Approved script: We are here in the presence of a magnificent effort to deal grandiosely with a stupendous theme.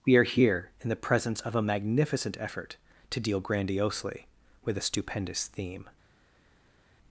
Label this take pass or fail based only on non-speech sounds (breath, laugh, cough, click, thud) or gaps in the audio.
pass